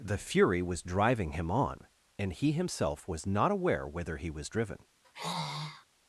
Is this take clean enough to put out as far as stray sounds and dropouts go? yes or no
no